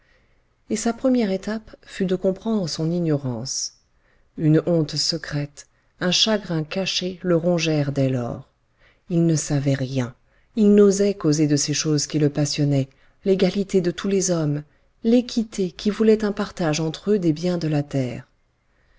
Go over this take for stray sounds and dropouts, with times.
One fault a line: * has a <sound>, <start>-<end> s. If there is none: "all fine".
all fine